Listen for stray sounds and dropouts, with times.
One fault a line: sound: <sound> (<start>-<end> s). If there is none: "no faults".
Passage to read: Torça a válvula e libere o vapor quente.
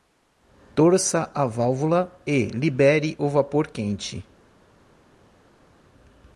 no faults